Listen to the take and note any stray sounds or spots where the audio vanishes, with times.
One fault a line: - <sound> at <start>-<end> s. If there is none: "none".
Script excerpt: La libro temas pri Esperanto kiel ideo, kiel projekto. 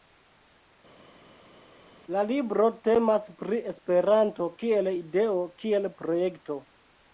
none